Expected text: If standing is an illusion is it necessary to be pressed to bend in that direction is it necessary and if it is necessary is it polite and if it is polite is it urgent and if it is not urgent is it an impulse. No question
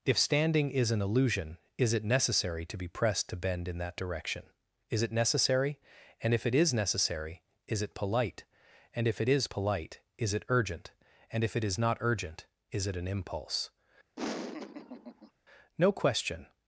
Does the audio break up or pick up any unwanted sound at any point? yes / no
yes